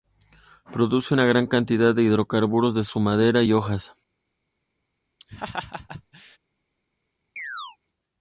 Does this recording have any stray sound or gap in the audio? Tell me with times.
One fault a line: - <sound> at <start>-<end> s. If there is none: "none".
- laugh at 5.2-6.4 s
- chirp at 7.4-7.8 s